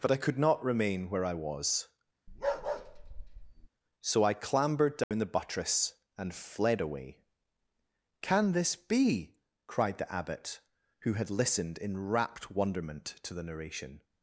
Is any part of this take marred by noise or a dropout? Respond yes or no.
yes